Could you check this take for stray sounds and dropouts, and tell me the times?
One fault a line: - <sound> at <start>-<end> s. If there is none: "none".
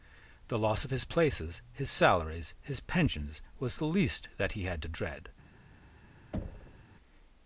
- thud at 6.3-6.8 s